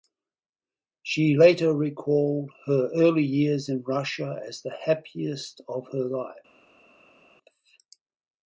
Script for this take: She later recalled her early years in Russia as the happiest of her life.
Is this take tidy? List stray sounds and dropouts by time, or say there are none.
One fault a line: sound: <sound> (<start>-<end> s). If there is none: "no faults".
no faults